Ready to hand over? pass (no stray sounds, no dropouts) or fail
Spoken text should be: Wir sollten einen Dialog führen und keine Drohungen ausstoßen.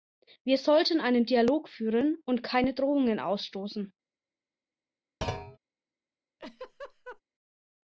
fail